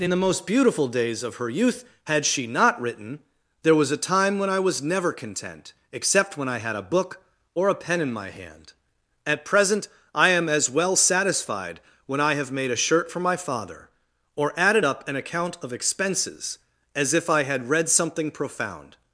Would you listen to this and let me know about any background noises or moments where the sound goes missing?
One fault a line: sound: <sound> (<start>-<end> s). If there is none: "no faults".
no faults